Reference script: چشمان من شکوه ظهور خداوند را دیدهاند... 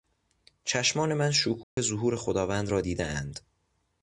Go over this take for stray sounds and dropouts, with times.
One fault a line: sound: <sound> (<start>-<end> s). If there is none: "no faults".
sound: dropout (1.6-1.8 s)